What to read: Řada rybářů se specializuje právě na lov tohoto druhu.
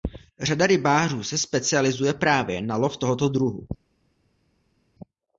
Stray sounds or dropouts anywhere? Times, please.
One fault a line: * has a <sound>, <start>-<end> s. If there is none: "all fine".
all fine